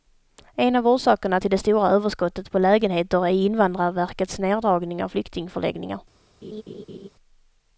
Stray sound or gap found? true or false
true